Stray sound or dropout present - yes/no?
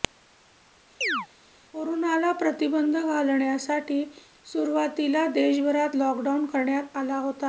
yes